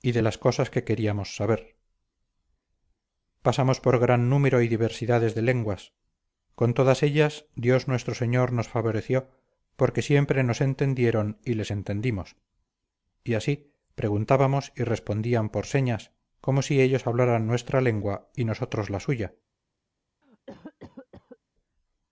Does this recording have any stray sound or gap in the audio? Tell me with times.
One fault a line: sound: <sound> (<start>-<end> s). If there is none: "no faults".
sound: cough (20.2-21.4 s)